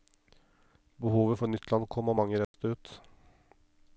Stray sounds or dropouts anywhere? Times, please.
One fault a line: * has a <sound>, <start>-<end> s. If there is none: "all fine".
* has a dropout, 2.4-2.5 s